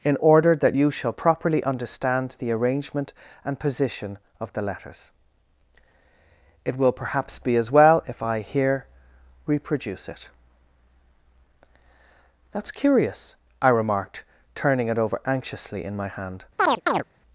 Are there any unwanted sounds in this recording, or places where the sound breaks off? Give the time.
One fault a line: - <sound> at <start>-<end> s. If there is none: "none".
- chirp at 16.6-17.0 s